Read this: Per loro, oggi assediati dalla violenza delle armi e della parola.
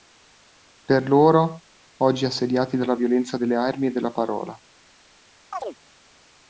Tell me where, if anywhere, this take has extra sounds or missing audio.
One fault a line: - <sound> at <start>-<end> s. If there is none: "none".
- chirp at 5.5-5.8 s